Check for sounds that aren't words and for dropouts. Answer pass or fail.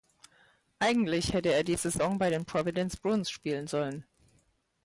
pass